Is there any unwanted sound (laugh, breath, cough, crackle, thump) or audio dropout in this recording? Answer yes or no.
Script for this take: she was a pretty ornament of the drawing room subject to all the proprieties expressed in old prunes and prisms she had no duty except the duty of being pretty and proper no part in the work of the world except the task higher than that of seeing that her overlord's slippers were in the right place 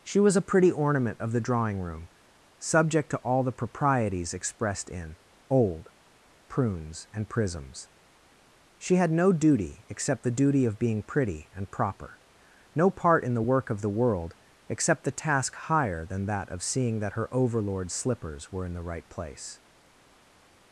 no